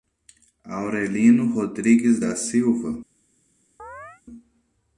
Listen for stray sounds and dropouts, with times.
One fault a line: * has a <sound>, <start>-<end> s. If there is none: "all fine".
* has a chirp, 3.8-4.2 s